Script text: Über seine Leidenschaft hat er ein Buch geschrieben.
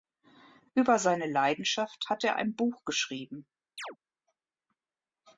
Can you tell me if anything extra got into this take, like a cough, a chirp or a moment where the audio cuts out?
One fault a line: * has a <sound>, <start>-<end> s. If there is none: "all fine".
* has a chirp, 3.8-4.0 s